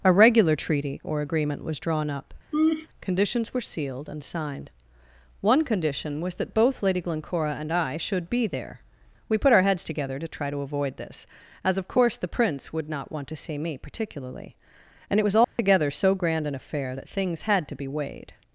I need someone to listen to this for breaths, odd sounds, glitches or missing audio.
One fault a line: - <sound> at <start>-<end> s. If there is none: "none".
- laugh at 2.5-2.9 s
- dropout at 15.4-15.6 s